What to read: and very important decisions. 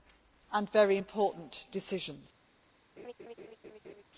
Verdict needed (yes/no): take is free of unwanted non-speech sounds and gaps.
no